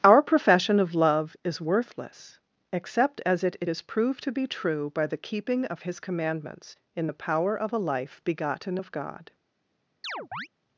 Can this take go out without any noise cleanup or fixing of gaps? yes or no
no